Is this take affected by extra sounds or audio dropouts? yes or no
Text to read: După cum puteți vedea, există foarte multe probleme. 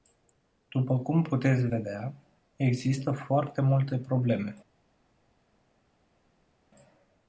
no